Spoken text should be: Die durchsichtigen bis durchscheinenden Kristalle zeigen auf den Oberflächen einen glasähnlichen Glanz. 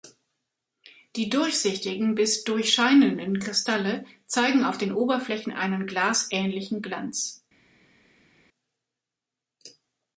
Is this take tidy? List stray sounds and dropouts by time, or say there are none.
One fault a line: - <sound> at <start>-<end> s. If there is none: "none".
none